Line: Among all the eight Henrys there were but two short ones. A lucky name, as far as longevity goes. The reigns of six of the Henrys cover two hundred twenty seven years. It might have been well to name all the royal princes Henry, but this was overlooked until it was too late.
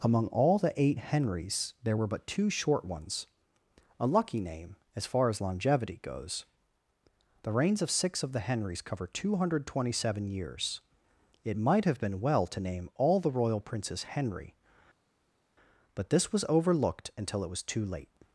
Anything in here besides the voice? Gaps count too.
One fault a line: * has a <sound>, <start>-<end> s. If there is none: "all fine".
all fine